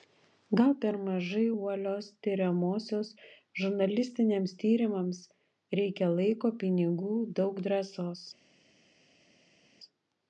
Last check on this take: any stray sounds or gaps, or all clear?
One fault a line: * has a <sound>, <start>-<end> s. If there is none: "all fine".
all fine